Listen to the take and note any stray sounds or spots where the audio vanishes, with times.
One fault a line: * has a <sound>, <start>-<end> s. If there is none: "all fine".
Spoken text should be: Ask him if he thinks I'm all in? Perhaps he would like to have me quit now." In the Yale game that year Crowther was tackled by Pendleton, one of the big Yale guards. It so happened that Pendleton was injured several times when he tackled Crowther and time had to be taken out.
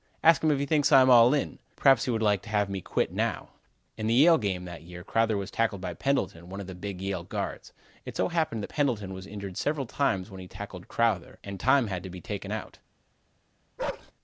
* has a bark, 13.8-14.1 s